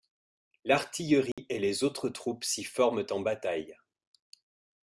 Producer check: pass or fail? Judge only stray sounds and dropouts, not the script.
fail